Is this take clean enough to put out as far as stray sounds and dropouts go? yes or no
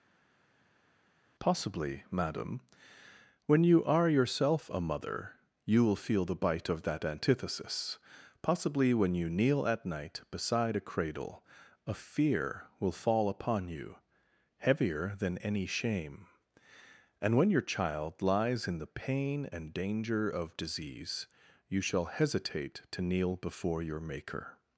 yes